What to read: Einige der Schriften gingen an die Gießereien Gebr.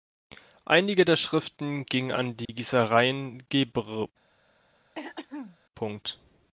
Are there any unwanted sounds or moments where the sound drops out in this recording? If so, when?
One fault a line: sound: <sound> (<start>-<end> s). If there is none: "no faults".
sound: dropout (2.5-2.5 s)
sound: throat clearing (4.9-5.6 s)